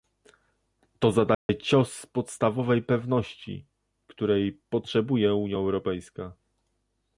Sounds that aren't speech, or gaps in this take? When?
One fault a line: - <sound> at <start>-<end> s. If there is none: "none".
- dropout at 1.3-1.5 s